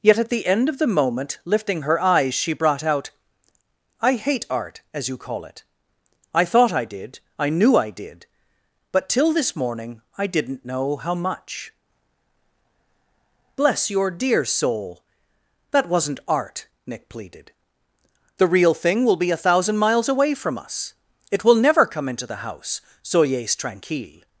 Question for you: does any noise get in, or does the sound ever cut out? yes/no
no